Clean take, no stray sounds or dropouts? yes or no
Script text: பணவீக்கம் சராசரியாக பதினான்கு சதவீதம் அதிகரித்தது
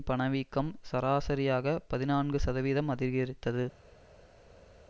yes